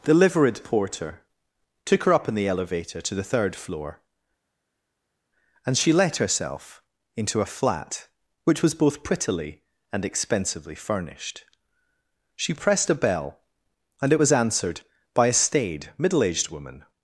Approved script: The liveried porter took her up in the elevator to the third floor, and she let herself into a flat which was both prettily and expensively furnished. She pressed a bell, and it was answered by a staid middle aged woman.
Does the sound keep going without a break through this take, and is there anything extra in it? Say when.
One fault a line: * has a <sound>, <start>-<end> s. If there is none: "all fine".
all fine